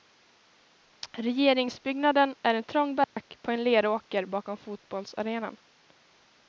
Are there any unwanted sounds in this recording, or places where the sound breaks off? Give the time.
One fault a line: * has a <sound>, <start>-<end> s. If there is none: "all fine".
* has a dropout, 3.0-3.2 s